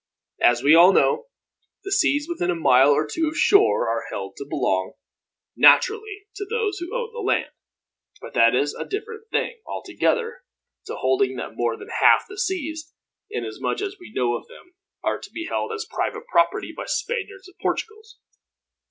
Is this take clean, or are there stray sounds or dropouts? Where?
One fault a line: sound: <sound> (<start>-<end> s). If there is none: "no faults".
no faults